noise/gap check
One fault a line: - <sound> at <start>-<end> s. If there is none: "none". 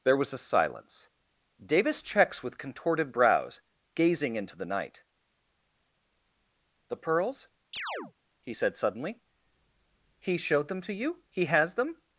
- chirp at 7.7-8.1 s